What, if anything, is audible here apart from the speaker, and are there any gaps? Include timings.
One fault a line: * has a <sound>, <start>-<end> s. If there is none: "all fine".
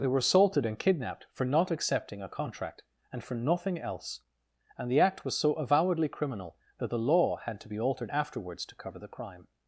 all fine